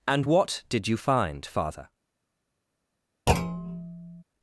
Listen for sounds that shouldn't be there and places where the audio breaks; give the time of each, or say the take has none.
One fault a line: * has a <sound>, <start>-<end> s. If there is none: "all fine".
* has a thud, 3.3-4.2 s